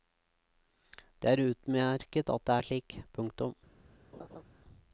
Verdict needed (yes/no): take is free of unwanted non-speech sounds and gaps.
no